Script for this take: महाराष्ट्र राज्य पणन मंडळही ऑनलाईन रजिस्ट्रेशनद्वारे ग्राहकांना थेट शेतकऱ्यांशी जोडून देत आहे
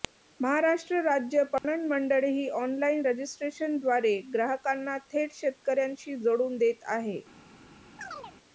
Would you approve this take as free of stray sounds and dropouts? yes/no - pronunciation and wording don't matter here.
no